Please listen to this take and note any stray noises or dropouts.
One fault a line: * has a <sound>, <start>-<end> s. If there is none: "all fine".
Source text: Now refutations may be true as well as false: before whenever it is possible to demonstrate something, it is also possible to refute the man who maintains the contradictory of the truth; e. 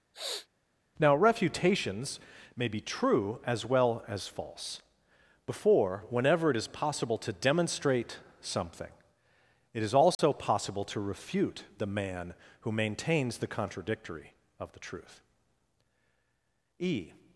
* has a sniff, 0.1-0.5 s
* has a dropout, 10.1-10.2 s